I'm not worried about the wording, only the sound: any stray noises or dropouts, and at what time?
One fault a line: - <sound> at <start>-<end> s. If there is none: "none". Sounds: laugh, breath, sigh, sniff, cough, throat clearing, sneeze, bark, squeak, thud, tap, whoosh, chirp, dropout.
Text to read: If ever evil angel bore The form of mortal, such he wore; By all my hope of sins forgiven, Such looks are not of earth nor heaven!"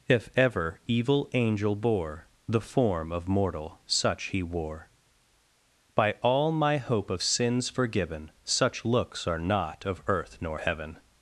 none